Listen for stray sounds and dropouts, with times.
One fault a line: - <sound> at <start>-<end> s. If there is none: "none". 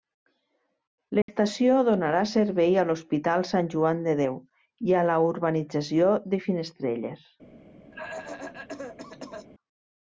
- dropout at 1.2-1.3 s
- cough at 7.9-9.5 s